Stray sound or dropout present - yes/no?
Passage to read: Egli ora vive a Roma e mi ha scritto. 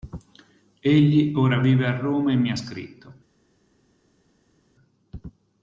no